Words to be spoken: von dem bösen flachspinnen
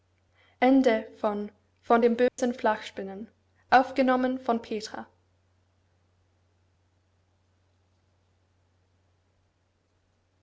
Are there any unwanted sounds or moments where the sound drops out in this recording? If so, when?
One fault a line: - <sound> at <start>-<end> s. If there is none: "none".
- dropout at 2.3-2.4 s